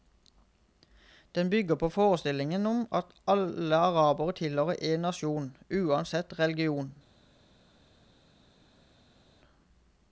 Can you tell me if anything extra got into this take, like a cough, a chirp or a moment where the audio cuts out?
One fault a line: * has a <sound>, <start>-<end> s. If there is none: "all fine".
all fine